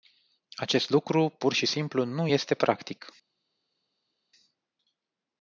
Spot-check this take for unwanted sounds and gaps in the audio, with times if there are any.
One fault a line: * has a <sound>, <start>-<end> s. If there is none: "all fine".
all fine